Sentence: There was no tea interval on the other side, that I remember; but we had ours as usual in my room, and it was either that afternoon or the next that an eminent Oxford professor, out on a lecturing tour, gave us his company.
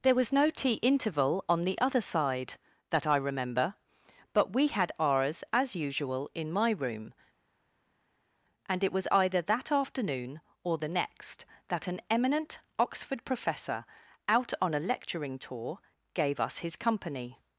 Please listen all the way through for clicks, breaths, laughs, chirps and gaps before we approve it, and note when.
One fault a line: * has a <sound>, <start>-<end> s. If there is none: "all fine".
all fine